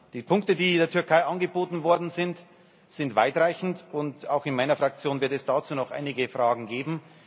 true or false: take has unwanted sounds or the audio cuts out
false